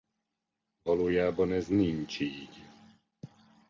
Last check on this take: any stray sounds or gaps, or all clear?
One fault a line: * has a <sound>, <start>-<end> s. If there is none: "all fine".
all fine